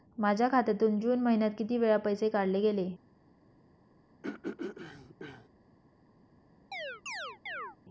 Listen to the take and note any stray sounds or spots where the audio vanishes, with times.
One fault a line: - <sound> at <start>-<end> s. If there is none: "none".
- throat clearing at 4.2-5.5 s
- chirp at 6.7-7.8 s